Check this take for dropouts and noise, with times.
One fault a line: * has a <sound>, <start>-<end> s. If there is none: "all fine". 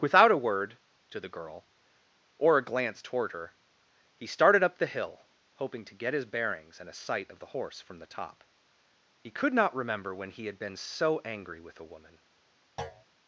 * has a thud, 12.8-13.1 s